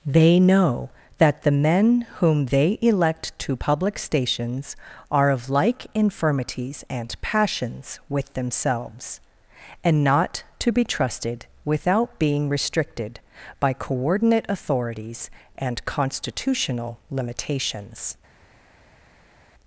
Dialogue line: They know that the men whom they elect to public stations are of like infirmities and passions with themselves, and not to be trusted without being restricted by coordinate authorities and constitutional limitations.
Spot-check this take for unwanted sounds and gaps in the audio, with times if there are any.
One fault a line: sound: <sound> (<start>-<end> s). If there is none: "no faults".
no faults